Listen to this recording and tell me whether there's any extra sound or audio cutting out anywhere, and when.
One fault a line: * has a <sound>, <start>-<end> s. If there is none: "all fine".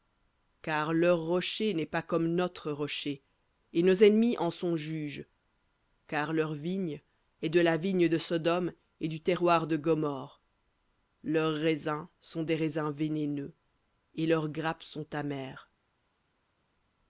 all fine